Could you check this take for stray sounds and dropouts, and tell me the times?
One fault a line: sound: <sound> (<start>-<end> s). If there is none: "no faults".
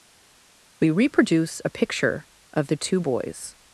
no faults